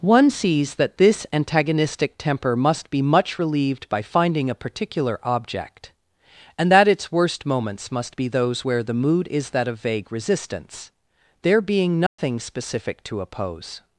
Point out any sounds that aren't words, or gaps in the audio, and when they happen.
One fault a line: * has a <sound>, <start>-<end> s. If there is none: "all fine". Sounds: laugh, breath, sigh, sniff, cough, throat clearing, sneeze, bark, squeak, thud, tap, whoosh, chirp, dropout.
* has a dropout, 12.1-12.2 s